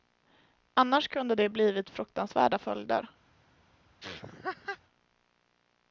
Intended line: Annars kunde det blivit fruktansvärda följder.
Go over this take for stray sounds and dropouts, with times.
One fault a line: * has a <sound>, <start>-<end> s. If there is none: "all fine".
* has a laugh, 4.0-4.8 s